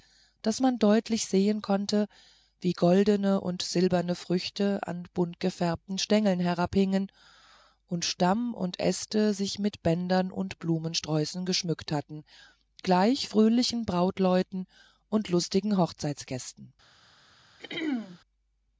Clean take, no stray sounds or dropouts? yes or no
no